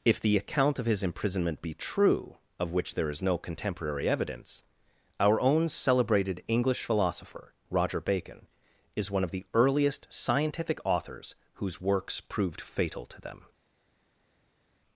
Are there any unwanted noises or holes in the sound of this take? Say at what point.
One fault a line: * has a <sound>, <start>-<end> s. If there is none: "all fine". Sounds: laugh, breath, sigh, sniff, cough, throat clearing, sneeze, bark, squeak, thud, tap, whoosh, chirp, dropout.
all fine